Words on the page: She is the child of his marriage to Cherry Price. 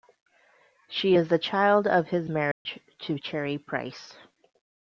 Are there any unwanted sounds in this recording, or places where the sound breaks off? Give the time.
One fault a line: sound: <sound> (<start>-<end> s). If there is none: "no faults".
sound: dropout (2.5-2.7 s)